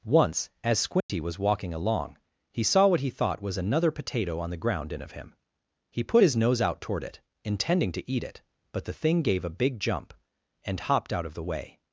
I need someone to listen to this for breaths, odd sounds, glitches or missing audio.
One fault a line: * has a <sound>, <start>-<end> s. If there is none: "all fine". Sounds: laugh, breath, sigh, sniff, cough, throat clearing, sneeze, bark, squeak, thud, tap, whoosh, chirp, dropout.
* has a dropout, 1.0-1.1 s